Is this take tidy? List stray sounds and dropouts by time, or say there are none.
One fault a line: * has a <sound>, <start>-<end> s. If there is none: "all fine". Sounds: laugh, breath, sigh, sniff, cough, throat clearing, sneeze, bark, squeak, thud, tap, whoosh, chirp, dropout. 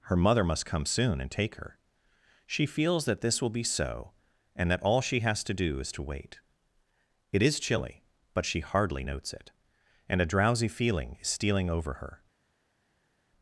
all fine